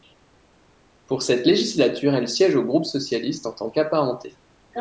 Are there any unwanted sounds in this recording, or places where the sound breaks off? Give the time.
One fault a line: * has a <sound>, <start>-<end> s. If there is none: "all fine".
all fine